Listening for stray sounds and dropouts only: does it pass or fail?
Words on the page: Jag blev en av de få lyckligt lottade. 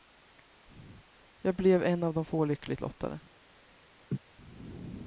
fail